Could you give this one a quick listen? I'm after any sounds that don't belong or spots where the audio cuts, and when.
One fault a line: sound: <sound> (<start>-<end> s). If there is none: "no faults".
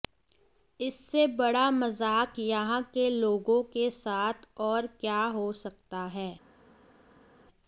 no faults